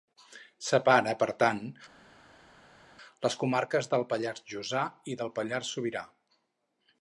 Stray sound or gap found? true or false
false